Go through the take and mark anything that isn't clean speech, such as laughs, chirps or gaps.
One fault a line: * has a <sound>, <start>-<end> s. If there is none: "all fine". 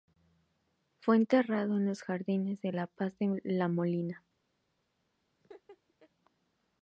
* has a laugh, 5.4-6.1 s